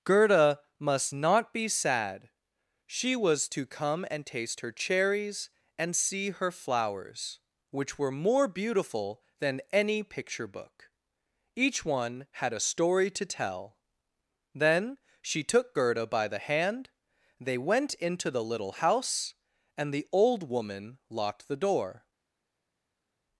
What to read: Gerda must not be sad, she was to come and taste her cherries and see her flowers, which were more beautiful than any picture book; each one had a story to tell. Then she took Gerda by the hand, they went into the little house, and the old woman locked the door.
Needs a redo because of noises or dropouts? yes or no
no